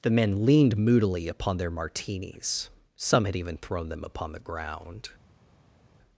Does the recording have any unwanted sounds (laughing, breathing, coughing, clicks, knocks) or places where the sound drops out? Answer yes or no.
no